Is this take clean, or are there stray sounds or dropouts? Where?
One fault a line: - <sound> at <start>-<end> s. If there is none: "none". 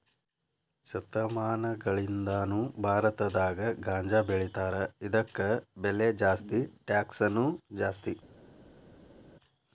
none